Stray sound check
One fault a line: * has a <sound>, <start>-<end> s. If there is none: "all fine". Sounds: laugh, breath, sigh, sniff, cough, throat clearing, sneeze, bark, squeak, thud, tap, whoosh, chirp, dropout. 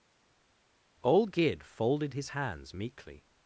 all fine